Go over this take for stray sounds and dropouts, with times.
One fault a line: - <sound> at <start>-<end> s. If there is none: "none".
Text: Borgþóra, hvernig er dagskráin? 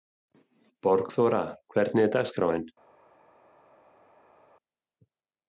none